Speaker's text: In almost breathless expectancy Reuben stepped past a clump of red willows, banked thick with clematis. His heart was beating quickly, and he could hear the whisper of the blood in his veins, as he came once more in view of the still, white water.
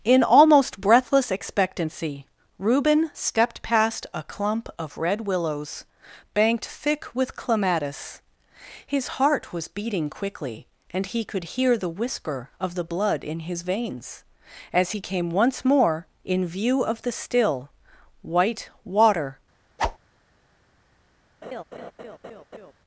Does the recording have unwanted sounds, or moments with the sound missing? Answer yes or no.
yes